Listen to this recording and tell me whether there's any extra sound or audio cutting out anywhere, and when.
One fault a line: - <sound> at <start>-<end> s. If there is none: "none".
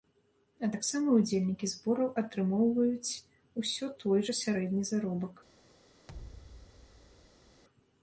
- thud at 6.1-7.6 s